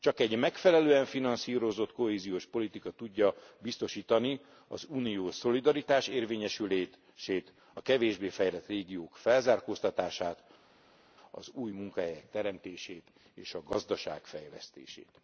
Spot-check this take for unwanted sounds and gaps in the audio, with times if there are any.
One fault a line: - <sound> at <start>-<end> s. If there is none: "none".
none